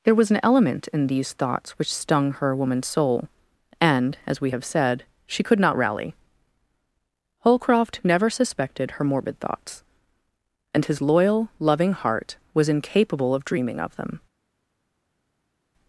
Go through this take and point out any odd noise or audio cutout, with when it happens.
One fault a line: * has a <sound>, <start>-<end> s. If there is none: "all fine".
all fine